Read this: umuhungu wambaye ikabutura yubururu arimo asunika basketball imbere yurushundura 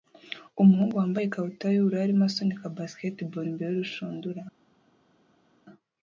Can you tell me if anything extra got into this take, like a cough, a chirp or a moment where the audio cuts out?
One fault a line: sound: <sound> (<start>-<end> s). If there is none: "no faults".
no faults